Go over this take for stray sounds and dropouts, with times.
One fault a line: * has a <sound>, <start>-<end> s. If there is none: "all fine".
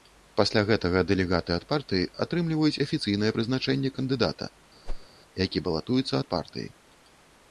* has a whoosh, 4.9-5.1 s